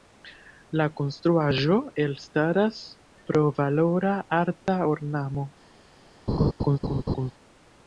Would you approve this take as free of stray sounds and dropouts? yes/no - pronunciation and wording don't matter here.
no